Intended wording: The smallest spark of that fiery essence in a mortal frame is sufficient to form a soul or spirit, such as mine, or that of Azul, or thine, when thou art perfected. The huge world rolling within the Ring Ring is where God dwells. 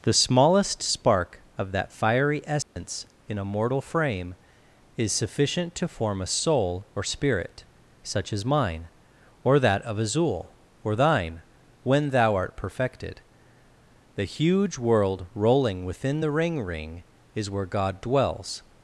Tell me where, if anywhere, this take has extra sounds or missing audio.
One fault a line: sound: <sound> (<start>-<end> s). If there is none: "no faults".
sound: dropout (2.6-2.8 s)